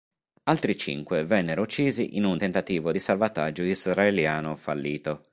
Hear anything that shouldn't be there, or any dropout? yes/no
no